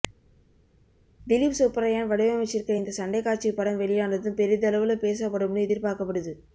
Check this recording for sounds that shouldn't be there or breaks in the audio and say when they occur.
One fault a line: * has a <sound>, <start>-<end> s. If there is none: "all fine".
all fine